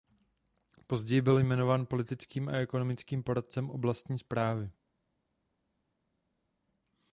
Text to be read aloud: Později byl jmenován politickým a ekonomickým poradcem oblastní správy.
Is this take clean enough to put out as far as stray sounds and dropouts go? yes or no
yes